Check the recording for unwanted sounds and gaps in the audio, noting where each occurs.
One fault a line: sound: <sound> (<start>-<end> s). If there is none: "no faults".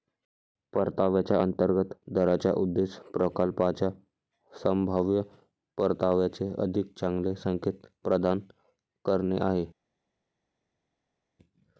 no faults